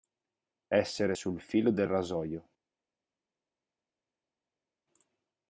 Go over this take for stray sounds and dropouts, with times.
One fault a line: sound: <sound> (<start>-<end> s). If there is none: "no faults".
no faults